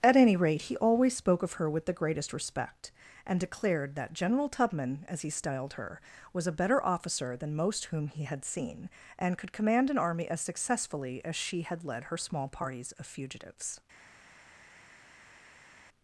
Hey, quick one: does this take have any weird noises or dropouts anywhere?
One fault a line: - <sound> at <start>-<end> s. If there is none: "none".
none